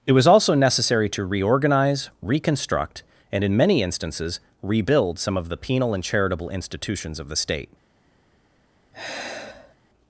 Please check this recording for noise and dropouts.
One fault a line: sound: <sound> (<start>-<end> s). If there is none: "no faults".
sound: sigh (8.9-9.8 s)